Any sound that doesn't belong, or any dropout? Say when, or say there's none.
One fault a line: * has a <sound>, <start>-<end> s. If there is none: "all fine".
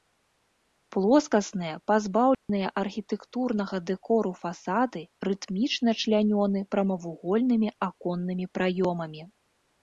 * has a dropout, 2.3-2.5 s